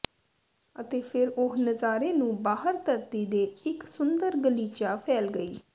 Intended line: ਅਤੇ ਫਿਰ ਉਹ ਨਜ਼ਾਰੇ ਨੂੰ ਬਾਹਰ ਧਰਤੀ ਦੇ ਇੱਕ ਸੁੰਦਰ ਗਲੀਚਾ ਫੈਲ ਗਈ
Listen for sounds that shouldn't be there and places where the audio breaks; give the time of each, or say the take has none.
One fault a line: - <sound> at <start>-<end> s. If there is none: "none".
none